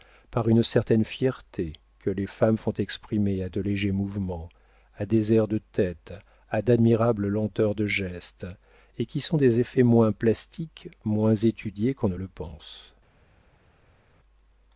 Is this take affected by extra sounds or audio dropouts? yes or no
no